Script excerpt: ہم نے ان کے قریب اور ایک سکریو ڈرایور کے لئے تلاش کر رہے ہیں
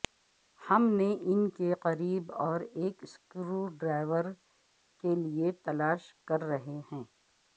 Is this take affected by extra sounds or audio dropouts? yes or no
no